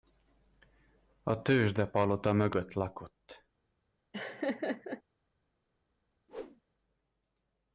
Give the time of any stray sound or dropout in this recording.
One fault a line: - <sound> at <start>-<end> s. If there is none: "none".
- laugh at 4.1-5.0 s
- whoosh at 6.3-6.6 s